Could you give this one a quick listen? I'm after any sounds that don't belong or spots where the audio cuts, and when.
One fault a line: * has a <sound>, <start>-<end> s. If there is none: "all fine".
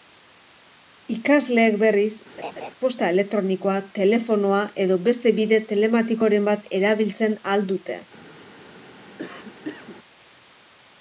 * has a laugh, 2.4-2.7 s
* has a cough, 9.2-10.0 s